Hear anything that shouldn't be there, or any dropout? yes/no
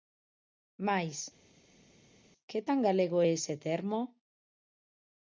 no